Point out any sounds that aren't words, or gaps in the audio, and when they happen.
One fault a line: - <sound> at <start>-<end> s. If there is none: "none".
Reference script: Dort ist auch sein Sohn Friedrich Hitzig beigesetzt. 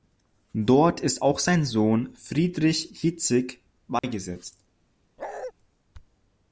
- dropout at 4.0-4.0 s
- bark at 5.2-5.5 s